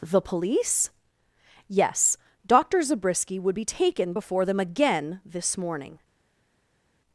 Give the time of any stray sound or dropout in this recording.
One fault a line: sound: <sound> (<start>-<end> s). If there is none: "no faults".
no faults